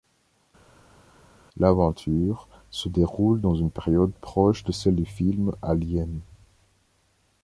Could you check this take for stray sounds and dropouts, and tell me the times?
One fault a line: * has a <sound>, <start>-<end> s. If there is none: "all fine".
all fine